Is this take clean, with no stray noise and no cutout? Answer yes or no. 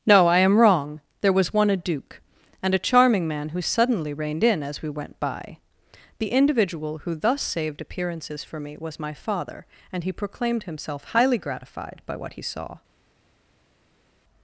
yes